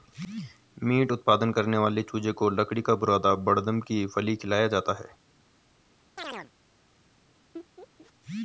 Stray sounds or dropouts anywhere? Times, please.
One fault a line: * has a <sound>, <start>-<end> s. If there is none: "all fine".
* has a chirp, 6.2-6.5 s
* has a laugh, 7.5-8.1 s